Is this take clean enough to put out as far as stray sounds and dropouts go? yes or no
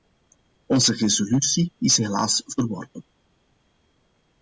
yes